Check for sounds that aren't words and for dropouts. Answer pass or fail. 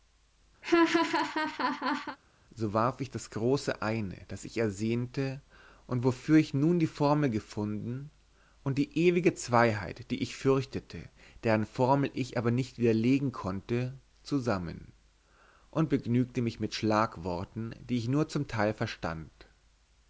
fail